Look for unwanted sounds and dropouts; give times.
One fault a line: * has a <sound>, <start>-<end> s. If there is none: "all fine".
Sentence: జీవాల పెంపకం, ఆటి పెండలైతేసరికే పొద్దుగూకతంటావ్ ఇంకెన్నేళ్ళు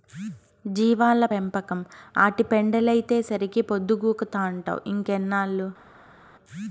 all fine